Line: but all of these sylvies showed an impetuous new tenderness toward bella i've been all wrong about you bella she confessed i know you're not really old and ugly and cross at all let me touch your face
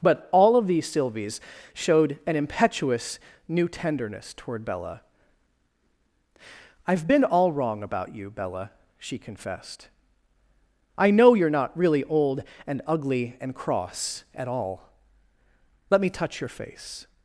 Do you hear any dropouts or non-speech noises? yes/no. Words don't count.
no